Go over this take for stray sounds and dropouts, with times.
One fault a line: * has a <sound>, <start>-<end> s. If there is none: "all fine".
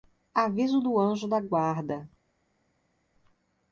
all fine